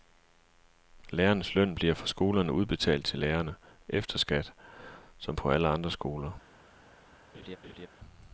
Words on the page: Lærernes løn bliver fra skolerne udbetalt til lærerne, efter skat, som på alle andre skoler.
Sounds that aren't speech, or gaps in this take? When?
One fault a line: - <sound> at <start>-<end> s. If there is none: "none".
- laugh at 7.3-7.9 s